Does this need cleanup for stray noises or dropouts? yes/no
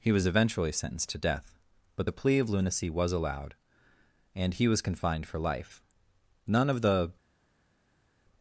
no